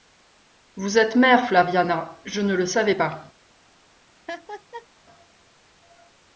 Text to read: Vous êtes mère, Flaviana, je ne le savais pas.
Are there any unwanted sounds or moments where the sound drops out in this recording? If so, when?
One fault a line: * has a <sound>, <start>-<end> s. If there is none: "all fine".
* has a laugh, 4.3-4.9 s